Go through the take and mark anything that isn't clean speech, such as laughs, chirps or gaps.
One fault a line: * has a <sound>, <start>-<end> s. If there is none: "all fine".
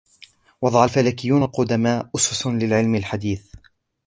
all fine